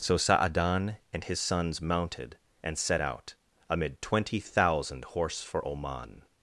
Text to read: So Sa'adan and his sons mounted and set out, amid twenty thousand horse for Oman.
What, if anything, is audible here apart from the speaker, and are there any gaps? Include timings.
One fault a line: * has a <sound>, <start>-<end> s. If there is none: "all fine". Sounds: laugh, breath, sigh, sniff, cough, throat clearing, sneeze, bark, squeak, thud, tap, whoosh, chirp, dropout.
all fine